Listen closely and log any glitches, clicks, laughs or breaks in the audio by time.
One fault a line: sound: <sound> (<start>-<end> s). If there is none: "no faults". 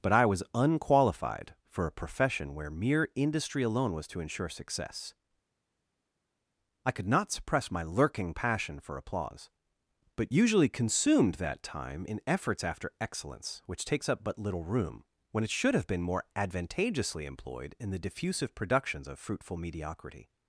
no faults